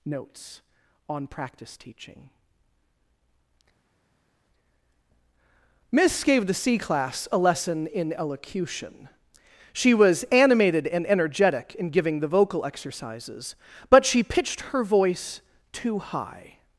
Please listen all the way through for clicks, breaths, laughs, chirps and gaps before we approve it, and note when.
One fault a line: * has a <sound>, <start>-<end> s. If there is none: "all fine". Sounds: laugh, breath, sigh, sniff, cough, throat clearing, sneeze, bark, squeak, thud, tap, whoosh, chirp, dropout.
all fine